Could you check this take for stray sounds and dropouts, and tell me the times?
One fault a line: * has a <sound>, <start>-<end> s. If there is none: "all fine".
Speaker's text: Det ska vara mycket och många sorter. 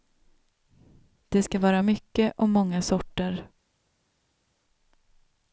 all fine